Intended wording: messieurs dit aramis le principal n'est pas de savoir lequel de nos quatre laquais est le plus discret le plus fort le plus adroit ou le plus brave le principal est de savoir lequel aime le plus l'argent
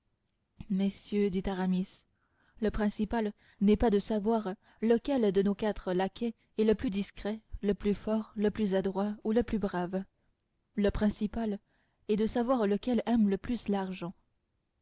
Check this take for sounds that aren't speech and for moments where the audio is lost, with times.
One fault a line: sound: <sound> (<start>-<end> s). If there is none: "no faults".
no faults